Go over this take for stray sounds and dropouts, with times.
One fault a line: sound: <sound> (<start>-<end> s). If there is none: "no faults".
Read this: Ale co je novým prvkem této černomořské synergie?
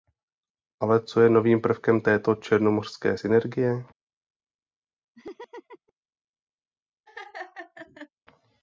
sound: laugh (5.1-5.9 s)
sound: laugh (7.1-8.1 s)